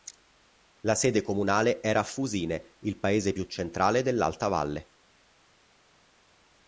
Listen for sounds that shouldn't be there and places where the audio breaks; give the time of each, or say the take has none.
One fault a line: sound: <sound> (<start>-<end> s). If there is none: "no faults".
no faults